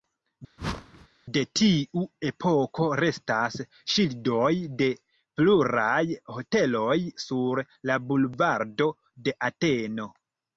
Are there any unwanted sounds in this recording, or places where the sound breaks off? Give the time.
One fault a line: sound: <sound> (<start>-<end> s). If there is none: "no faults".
sound: whoosh (0.6-1.1 s)